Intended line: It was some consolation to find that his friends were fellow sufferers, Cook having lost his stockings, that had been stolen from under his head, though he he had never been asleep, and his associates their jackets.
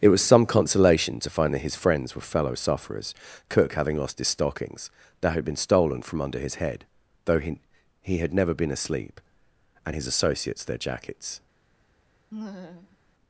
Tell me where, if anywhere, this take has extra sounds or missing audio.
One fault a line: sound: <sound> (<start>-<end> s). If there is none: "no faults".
sound: laugh (12.3-13.0 s)